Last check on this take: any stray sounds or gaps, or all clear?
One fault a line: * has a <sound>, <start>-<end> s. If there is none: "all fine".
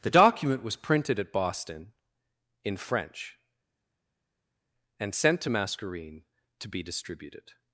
all fine